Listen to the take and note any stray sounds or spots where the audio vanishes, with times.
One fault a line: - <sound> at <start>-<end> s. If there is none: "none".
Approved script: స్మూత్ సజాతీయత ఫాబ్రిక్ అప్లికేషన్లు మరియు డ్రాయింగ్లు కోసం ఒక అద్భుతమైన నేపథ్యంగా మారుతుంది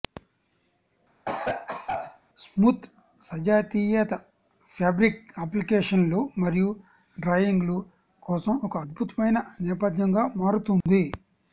- cough at 1.3-2.2 s
- dropout at 10.8-10.9 s